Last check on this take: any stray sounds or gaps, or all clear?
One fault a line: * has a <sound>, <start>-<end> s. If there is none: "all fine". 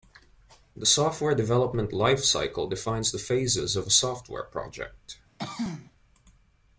* has a throat clearing, 5.4-5.9 s